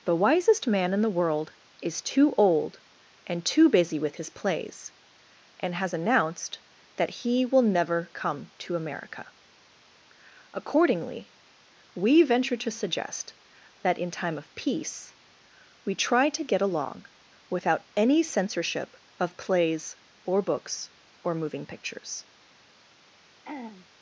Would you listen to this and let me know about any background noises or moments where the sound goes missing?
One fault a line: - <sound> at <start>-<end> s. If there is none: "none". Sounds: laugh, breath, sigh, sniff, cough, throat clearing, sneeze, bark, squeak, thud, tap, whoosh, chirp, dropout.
- throat clearing at 23.4-23.9 s